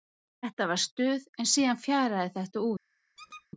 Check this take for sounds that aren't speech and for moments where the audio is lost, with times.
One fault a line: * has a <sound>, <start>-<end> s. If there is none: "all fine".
* has a squeak, 3.2-3.5 s